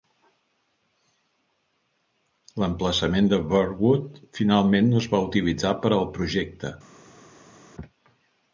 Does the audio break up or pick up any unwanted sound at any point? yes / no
no